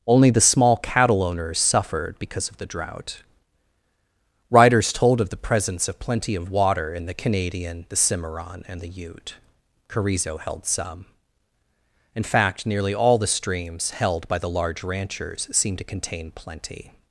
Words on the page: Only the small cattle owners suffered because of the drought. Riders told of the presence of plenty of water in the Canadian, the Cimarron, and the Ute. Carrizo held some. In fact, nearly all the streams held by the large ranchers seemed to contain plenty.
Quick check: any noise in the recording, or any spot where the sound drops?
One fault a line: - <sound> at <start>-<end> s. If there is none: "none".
none